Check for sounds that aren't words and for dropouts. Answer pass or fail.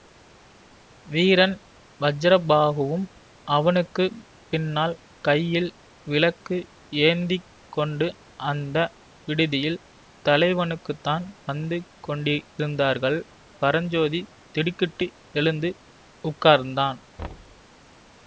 fail